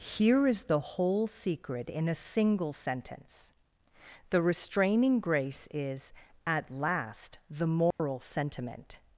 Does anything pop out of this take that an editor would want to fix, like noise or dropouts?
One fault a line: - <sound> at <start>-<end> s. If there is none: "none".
- dropout at 7.9-8.0 s